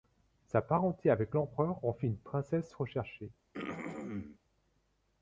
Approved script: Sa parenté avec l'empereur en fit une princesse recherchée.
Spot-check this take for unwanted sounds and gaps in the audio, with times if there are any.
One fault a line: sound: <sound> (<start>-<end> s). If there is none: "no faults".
sound: throat clearing (3.5-4.4 s)